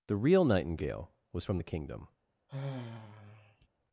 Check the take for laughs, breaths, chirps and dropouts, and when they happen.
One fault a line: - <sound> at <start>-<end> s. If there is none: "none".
- sigh at 2.5-3.7 s